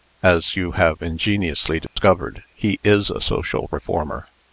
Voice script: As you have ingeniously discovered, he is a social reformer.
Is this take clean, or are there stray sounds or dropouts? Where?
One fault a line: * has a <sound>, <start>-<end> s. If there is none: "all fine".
* has a dropout, 1.9-2.0 s